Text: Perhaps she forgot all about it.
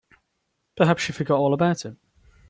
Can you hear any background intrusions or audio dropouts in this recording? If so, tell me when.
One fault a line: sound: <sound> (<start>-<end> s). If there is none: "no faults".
no faults